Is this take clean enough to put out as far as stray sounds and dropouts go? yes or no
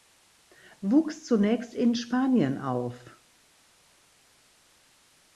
yes